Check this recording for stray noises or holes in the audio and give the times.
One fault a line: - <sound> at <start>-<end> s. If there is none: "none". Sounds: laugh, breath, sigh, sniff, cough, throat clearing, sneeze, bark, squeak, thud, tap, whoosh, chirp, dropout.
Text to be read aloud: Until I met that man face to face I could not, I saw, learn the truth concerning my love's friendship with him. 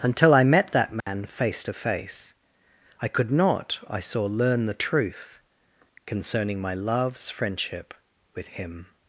- dropout at 1.0-1.1 s